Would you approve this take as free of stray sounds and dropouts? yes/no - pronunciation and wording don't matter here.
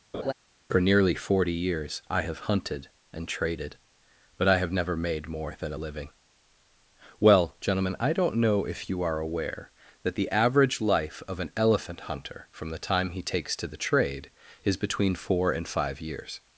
no